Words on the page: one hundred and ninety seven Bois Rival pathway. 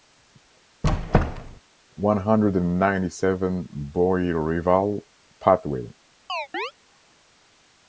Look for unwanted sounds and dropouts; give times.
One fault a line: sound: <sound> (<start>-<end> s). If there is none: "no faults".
sound: squeak (0.8-1.6 s)
sound: chirp (6.3-6.7 s)